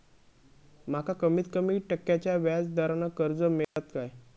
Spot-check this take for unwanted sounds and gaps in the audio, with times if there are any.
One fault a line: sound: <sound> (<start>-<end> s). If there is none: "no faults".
sound: dropout (3.6-3.8 s)